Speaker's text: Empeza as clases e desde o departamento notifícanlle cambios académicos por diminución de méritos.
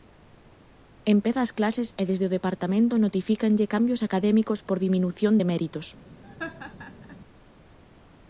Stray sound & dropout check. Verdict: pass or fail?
fail